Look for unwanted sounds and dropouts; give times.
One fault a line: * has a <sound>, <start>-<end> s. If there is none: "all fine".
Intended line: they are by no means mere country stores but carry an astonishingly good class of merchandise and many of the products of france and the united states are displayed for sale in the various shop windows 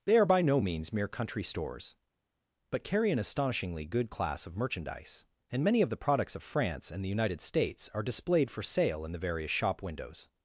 all fine